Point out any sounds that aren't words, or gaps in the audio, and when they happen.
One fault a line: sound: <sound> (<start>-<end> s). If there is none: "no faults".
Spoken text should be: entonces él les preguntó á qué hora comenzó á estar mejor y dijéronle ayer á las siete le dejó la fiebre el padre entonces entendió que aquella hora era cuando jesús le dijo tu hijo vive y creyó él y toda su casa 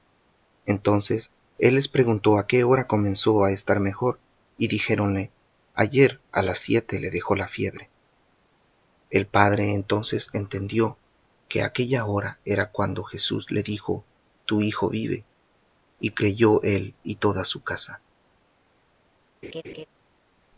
sound: laugh (19.4-19.9 s)